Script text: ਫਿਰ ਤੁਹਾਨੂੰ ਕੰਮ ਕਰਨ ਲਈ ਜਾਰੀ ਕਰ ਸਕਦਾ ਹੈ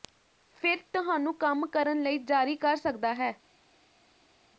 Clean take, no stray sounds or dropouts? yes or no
yes